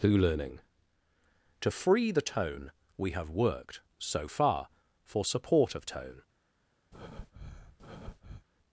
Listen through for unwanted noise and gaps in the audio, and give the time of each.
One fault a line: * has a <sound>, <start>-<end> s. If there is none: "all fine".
* has a breath, 6.9-8.5 s